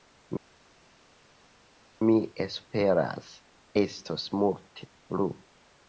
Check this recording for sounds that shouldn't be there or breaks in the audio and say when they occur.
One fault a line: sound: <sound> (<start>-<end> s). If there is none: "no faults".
no faults